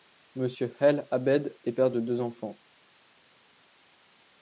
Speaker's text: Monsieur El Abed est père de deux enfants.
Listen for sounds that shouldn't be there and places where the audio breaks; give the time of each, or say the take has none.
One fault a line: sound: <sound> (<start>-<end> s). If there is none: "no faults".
no faults